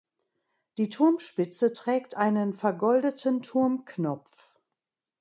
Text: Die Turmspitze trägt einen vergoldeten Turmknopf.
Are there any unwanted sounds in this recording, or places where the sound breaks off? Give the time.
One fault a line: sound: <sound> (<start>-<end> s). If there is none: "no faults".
no faults